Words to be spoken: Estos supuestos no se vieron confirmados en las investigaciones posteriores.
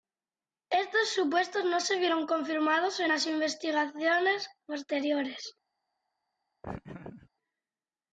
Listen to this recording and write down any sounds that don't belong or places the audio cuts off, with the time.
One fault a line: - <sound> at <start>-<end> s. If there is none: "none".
- laugh at 6.6-7.3 s